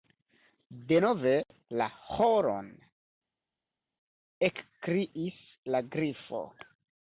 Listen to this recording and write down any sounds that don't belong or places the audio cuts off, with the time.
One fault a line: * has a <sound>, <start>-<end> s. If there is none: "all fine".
all fine